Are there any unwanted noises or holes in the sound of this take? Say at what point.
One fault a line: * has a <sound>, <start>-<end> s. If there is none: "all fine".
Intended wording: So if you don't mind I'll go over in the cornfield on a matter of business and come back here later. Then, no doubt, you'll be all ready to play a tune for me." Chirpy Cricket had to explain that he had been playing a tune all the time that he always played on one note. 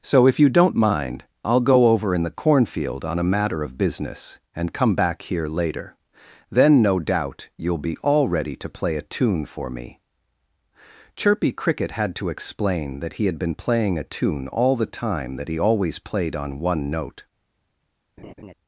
* has a laugh, 18.2-18.5 s